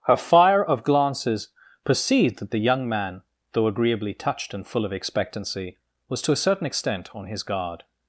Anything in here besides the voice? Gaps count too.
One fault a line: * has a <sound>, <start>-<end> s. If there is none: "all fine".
all fine